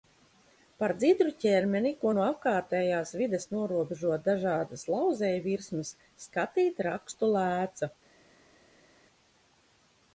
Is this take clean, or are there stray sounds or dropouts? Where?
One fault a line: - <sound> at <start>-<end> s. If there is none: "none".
none